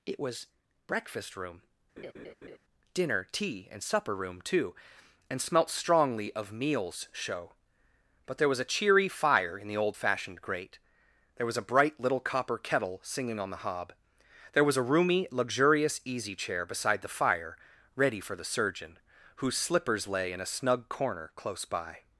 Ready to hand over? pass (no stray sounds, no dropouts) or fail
fail